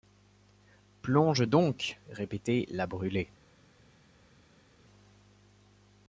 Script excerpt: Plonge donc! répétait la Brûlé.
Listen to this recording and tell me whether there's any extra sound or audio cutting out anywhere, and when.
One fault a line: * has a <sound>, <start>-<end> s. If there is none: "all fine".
all fine